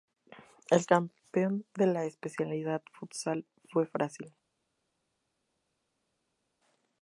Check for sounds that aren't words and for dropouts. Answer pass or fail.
pass